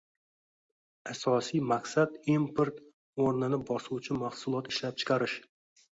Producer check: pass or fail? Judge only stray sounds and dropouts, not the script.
pass